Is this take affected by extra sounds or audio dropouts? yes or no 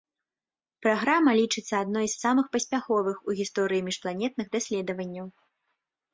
no